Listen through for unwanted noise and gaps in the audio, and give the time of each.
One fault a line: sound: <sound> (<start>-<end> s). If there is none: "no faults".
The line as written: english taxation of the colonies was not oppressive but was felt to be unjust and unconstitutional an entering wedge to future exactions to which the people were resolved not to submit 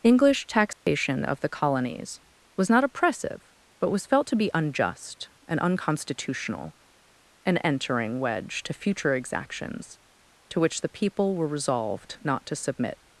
sound: dropout (0.7-0.9 s)